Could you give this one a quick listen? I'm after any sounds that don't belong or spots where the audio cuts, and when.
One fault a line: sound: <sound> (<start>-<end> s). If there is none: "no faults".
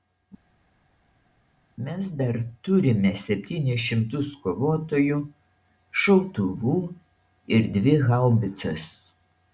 no faults